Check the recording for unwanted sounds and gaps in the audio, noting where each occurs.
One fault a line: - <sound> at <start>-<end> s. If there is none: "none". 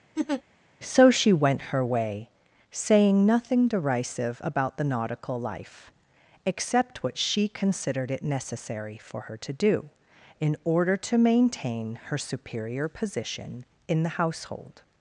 - laugh at 0.2-0.4 s